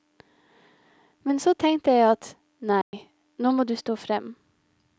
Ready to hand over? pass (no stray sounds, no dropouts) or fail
fail